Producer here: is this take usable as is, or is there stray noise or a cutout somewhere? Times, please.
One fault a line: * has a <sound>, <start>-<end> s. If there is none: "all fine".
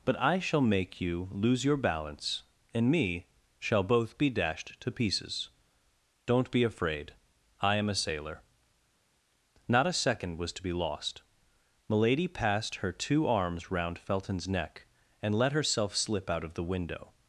all fine